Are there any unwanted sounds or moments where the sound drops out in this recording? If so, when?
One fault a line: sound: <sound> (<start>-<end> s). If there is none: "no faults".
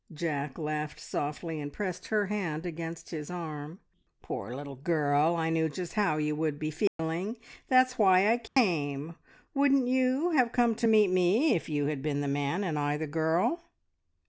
sound: dropout (6.9-7.0 s)
sound: dropout (8.5-8.6 s)